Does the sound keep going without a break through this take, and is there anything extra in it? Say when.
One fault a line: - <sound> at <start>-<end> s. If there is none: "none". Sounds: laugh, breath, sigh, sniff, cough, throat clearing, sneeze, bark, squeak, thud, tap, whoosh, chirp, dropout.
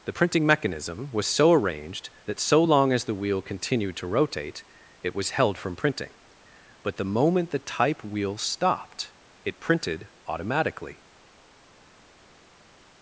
none